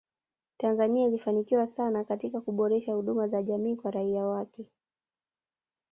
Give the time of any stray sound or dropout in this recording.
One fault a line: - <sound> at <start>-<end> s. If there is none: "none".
none